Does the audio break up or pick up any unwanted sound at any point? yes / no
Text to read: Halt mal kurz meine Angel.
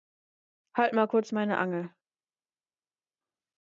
no